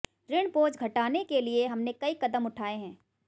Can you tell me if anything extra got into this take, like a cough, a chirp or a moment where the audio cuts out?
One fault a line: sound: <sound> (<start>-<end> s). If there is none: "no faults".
no faults